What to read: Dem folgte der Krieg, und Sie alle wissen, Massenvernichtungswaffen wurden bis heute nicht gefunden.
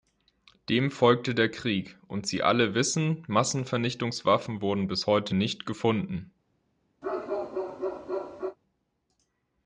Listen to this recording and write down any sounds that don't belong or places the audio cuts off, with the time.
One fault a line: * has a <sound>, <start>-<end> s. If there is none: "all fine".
* has a bark, 7.0-8.6 s